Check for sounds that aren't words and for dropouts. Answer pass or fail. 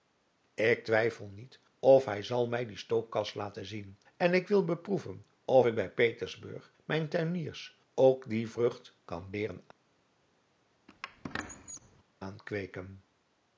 fail